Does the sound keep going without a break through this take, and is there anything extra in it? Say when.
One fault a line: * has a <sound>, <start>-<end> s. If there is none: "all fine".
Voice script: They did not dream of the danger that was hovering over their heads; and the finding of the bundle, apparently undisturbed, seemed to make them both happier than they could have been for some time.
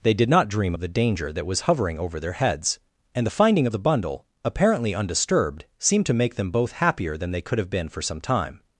all fine